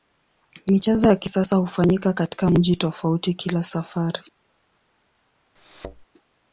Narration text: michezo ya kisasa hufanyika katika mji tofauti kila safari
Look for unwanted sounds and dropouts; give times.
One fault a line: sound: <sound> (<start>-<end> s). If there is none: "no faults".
sound: thud (5.6-6.0 s)